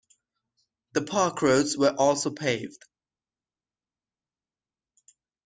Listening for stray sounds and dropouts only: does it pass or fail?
pass